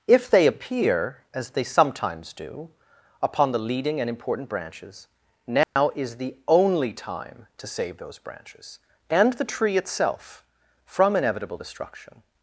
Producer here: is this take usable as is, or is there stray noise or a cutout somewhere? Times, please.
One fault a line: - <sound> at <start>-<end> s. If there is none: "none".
- dropout at 5.6-5.8 s